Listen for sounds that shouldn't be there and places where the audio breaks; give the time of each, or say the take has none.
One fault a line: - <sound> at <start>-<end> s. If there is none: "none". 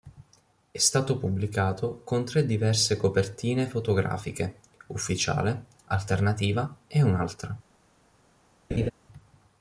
- laugh at 8.7-8.9 s